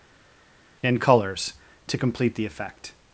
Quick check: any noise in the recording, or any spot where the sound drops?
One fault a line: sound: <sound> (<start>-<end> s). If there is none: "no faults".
no faults